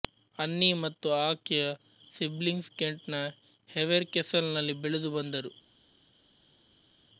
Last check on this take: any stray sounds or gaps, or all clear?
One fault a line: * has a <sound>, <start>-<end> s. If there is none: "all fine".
all fine